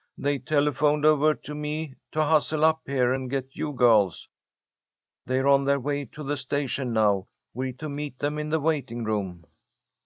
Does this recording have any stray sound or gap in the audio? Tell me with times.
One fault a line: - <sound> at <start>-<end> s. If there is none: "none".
none